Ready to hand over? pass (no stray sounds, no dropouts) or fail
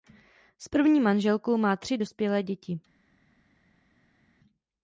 pass